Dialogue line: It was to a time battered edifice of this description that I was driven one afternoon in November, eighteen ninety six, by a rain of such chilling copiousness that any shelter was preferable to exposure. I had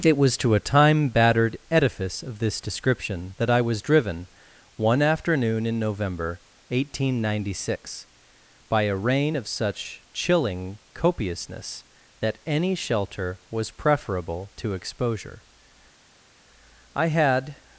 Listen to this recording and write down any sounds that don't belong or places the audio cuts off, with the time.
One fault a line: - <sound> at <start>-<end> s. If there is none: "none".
none